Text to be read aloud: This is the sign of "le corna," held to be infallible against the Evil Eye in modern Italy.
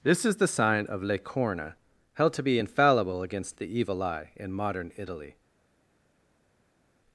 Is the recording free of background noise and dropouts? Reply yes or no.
yes